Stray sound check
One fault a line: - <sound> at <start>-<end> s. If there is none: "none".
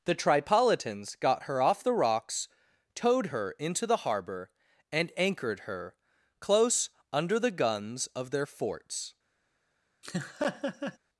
- laugh at 10.0-11.0 s